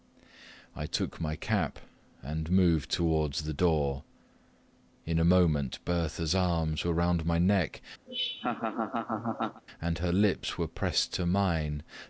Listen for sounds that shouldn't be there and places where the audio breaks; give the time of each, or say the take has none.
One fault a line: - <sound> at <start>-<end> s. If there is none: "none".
- laugh at 8.1-9.6 s